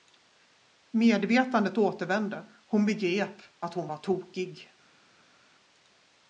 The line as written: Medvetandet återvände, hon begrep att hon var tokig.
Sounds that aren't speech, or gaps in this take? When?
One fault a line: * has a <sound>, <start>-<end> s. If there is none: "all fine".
all fine